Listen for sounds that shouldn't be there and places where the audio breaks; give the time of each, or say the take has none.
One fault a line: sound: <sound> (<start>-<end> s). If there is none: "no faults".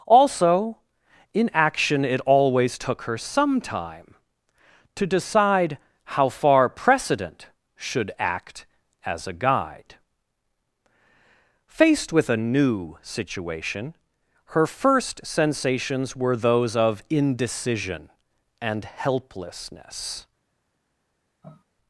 sound: sniff (21.4-21.6 s)